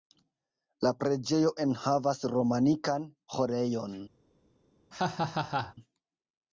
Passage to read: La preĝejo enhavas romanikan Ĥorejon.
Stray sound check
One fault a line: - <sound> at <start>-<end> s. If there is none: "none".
- laugh at 4.9-5.7 s